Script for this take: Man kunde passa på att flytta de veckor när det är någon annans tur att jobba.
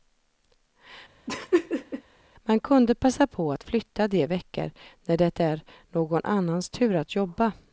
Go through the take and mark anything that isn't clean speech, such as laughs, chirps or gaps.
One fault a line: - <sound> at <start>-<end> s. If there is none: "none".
- laugh at 1.3-2.0 s